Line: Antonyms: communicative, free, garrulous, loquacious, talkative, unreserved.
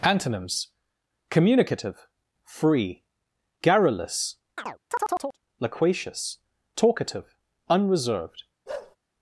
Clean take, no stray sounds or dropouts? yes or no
no